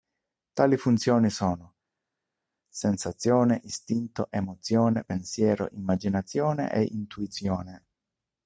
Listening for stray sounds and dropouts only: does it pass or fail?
pass